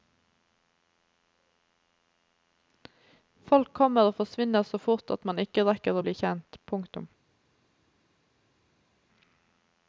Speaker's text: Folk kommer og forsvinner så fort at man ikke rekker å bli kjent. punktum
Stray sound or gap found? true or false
false